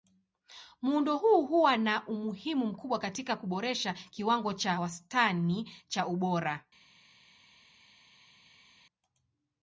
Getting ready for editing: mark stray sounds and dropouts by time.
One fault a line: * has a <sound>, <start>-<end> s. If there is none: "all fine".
all fine